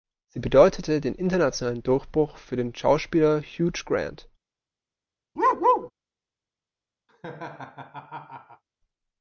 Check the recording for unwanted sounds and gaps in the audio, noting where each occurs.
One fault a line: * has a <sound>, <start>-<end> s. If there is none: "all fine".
* has a bark, 5.4-5.9 s
* has a laugh, 7.1-8.6 s